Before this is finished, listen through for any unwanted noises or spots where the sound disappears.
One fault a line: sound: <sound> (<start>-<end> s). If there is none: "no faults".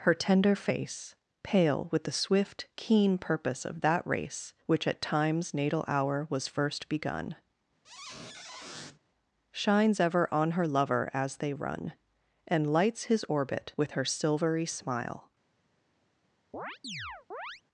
sound: squeak (7.8-9.0 s)
sound: chirp (16.5-17.6 s)